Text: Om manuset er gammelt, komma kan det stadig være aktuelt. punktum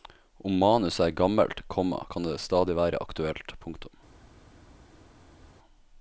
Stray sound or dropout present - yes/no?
no